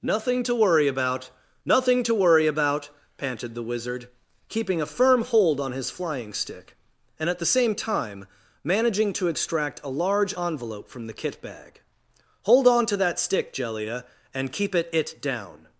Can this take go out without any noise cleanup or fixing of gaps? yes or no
yes